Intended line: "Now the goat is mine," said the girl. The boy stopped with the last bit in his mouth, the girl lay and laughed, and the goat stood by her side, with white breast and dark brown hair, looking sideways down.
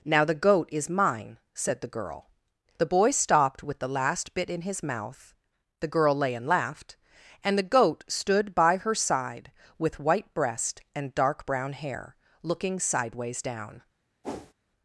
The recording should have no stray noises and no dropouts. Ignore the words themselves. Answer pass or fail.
fail